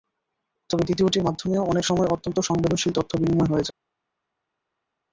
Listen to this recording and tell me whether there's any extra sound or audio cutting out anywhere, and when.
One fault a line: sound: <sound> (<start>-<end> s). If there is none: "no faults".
no faults